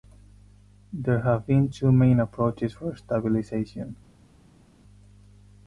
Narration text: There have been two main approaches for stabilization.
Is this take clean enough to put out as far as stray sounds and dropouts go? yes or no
yes